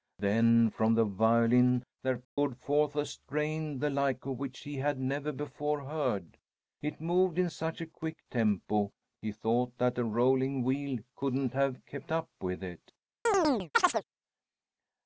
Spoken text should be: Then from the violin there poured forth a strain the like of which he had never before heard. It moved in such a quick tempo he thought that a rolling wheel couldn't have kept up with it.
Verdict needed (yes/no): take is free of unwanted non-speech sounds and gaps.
no